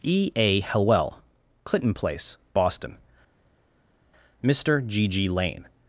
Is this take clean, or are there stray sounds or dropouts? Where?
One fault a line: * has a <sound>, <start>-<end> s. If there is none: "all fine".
all fine